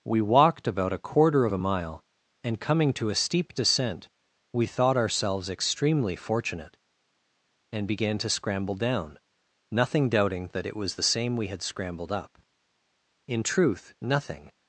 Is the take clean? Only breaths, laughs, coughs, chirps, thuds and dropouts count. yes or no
yes